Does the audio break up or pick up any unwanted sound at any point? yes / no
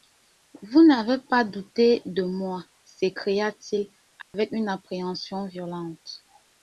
yes